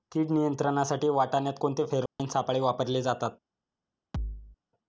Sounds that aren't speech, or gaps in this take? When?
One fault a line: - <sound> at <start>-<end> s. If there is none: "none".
- dropout at 2.1-2.2 s
- thud at 4.1-4.6 s